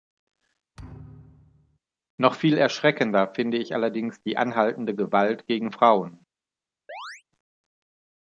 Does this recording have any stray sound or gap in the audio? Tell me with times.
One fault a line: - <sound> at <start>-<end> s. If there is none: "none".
- thud at 0.8-1.8 s
- chirp at 6.9-7.2 s